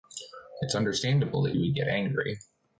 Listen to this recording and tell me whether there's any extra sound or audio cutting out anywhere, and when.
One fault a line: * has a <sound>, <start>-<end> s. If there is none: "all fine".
all fine